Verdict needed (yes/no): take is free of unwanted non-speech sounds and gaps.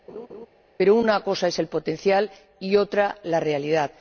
no